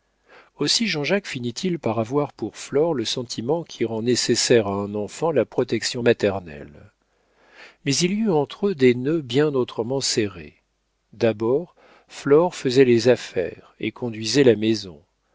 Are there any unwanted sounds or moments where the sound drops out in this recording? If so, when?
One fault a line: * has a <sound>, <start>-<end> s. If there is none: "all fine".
all fine